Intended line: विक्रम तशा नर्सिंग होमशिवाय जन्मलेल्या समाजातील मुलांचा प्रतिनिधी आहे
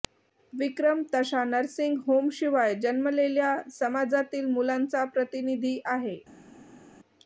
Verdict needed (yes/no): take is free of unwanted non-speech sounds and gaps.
yes